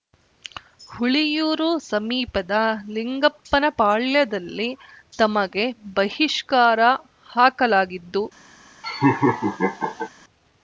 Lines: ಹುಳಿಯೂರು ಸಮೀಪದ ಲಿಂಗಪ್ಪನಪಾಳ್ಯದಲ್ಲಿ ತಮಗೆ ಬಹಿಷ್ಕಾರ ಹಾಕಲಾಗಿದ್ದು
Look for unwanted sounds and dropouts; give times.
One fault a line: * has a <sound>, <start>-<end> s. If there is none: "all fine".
* has a laugh, 8.8-10.1 s